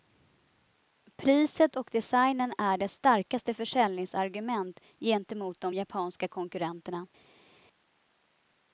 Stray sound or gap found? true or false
false